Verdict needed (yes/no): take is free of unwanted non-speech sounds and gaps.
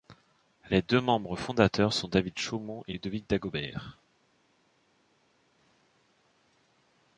yes